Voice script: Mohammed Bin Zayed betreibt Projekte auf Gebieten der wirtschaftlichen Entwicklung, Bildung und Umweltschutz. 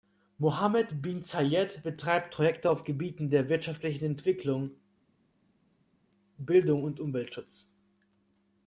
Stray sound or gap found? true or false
false